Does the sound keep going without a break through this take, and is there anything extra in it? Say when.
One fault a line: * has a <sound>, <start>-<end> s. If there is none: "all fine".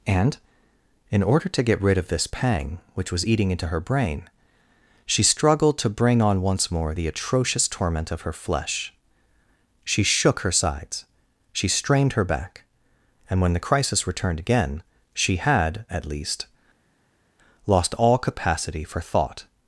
all fine